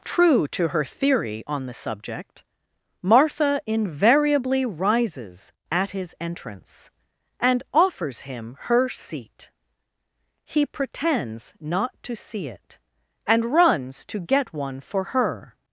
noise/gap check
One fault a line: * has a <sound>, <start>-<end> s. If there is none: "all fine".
all fine